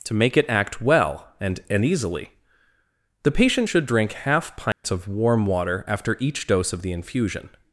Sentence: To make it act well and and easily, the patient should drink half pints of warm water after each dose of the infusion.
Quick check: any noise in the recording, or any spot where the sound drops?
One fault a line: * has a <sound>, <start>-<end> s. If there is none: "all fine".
* has a dropout, 4.7-4.8 s